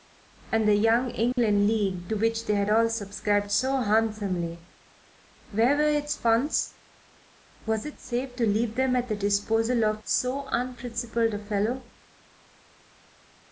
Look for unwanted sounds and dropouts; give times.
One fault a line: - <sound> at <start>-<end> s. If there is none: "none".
- dropout at 1.3-1.4 s